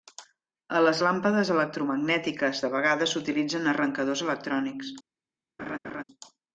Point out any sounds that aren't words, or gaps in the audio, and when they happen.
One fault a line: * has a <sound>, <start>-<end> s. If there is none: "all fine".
* has a laugh, 5.6-6.0 s